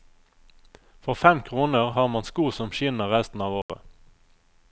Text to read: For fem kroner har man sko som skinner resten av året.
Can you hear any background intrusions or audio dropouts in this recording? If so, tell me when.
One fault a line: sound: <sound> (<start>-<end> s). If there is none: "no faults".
sound: dropout (3.6-3.7 s)